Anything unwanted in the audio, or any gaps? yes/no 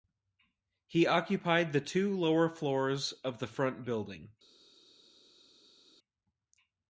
no